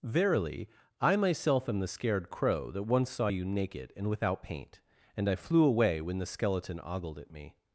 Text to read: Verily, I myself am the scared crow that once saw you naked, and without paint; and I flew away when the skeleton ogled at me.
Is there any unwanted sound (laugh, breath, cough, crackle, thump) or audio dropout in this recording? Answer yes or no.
no